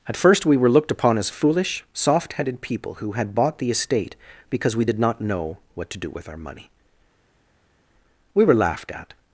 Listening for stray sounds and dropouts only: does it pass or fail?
pass